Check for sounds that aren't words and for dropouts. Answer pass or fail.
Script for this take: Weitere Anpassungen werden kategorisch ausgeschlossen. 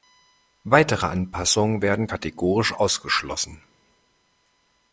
pass